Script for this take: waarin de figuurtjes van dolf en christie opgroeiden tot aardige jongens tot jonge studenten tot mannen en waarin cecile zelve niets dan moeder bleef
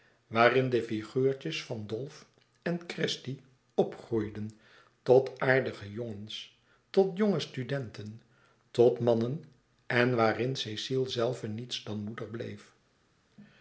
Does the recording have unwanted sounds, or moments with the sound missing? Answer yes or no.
no